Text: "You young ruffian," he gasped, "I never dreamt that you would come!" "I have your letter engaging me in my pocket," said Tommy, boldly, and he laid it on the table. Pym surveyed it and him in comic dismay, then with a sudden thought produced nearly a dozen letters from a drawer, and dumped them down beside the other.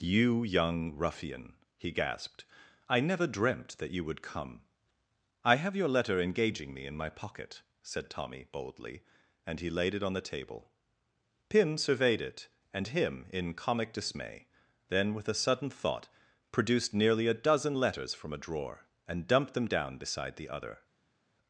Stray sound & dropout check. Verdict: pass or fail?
pass